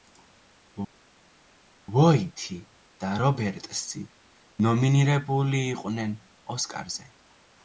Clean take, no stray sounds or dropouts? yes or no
yes